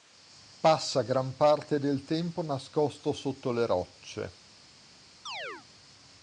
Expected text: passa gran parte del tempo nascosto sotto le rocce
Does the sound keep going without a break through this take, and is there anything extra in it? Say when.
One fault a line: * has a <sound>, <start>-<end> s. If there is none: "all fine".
* has a chirp, 5.3-5.7 s